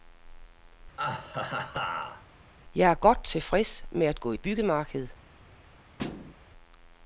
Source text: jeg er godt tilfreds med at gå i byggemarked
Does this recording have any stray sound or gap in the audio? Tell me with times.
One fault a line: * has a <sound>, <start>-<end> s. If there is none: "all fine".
* has a laugh, 1.0-2.3 s
* has a thud, 6.0-6.3 s